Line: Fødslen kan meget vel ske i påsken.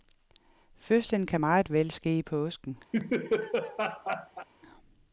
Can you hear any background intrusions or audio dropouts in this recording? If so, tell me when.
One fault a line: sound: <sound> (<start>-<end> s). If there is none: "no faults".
sound: laugh (2.9-4.5 s)